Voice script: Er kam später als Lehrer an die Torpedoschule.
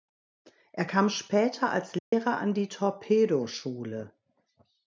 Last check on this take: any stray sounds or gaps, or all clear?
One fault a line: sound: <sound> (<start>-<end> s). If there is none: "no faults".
sound: dropout (2.0-2.1 s)